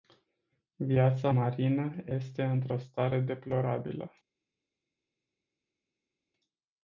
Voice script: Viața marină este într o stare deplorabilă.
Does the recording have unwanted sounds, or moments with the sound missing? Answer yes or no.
no